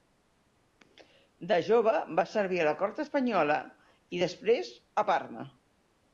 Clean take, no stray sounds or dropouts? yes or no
yes